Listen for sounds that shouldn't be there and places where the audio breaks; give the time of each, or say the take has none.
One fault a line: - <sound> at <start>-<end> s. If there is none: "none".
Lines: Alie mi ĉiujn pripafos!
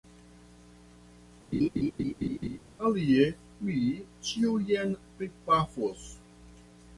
- laugh at 1.5-2.6 s